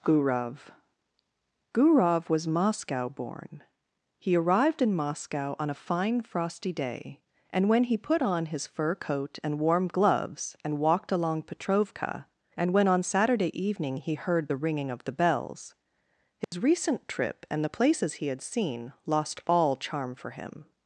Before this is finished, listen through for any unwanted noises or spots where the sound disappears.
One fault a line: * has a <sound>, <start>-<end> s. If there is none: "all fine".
* has a dropout, 16.4-16.5 s